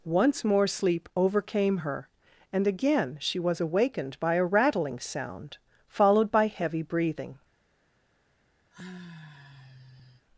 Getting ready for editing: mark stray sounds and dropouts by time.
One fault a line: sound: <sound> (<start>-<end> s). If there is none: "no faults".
sound: sigh (8.7-10.3 s)